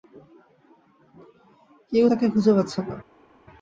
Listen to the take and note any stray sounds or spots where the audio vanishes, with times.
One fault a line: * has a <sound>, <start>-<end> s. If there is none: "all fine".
all fine